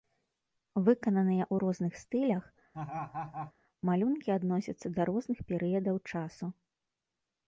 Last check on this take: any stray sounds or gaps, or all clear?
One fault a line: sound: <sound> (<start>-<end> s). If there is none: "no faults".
sound: laugh (2.7-3.5 s)